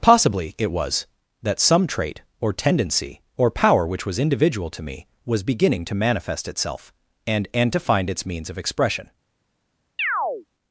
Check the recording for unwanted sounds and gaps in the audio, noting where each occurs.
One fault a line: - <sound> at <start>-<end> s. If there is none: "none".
- chirp at 10.0-10.5 s